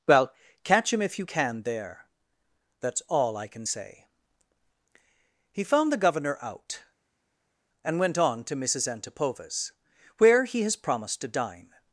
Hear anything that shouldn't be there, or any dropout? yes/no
no